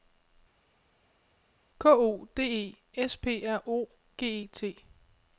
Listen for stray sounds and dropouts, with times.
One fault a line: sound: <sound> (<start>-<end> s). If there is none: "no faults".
no faults